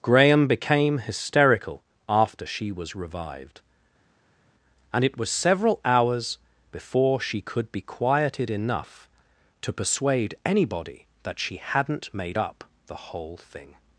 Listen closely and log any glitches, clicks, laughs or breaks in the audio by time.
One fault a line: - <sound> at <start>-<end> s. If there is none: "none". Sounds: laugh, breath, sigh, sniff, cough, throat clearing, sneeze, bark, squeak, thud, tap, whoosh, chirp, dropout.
none